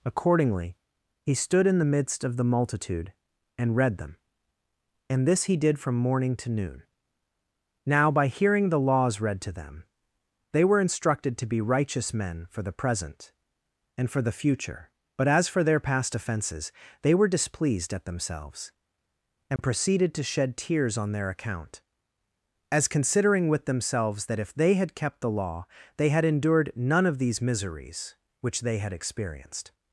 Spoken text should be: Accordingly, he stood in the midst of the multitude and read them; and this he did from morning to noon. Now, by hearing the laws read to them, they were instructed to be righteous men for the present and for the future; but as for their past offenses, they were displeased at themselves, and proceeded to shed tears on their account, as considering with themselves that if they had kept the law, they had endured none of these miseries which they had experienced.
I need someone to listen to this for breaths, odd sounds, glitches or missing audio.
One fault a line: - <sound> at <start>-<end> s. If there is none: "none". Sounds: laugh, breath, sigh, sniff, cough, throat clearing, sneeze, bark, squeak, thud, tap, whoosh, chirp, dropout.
- dropout at 19.6-19.6 s